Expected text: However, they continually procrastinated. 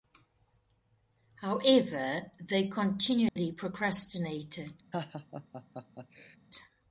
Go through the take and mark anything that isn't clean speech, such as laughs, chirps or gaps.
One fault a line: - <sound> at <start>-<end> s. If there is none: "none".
- dropout at 3.3-3.4 s
- laugh at 4.9-6.4 s